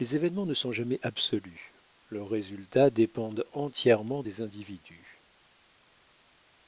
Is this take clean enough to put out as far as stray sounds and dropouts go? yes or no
yes